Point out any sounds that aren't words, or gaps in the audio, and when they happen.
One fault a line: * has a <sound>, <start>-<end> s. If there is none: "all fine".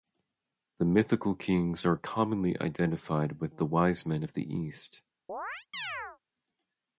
* has a chirp, 5.3-6.2 s